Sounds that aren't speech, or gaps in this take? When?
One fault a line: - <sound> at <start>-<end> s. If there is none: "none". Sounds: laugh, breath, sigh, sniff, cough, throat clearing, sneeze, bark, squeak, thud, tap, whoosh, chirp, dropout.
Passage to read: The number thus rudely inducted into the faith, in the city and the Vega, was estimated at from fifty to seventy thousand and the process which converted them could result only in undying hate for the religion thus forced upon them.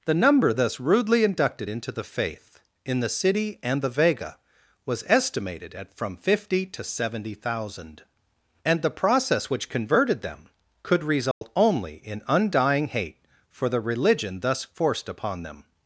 - dropout at 11.3-11.4 s